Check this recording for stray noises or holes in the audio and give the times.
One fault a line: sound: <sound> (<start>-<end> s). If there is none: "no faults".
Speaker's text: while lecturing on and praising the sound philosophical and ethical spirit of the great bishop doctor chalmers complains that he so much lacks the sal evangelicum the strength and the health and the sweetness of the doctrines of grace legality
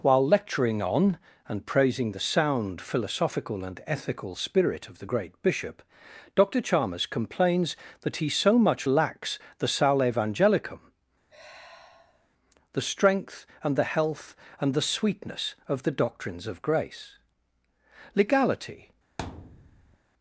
sound: sigh (11.3-12.3 s)
sound: thud (19.2-20.0 s)